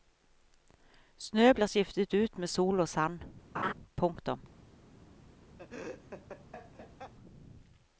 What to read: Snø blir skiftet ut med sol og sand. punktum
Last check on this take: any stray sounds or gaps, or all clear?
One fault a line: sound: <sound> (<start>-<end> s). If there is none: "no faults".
sound: laugh (3.5-3.7 s)
sound: laugh (5.6-7.1 s)